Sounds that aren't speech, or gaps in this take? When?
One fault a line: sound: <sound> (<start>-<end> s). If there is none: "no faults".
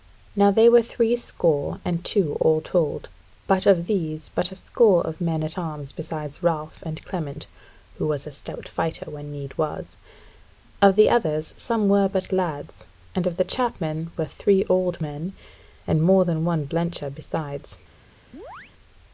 sound: chirp (18.3-18.7 s)